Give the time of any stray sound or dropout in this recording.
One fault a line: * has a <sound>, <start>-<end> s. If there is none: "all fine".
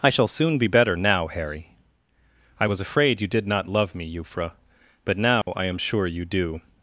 * has a dropout, 5.4-5.5 s